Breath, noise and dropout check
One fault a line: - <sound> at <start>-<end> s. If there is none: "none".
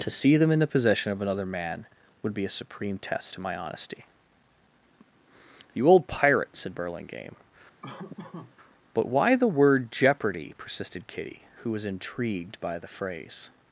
- laugh at 7.8-8.6 s